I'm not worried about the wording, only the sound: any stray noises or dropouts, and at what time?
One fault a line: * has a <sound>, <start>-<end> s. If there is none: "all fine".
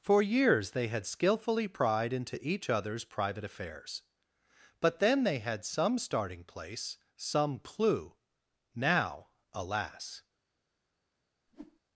* has a whoosh, 11.5-11.8 s